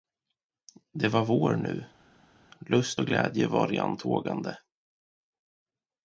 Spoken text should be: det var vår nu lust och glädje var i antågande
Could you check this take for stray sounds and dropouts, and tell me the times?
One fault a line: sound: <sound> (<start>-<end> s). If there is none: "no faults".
no faults